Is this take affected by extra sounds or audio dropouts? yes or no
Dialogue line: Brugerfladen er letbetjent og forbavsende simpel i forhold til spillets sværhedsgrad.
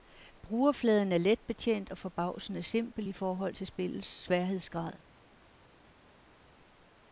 no